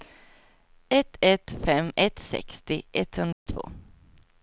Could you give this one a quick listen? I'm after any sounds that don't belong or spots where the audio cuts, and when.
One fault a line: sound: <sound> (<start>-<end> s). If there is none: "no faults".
sound: dropout (3.3-3.5 s)